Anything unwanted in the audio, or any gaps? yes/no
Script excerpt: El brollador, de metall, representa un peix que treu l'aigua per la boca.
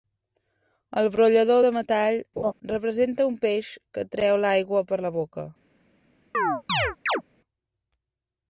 yes